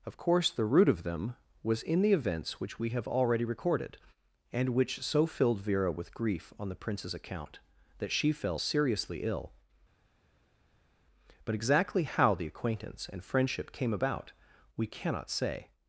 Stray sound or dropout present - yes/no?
no